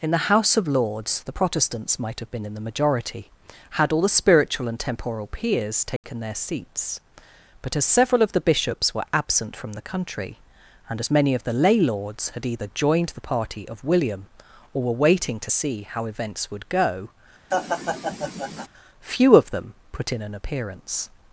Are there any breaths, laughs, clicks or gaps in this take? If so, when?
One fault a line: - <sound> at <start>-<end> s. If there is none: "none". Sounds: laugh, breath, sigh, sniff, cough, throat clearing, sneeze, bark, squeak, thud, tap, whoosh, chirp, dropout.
- dropout at 6.0-6.0 s
- laugh at 17.5-18.7 s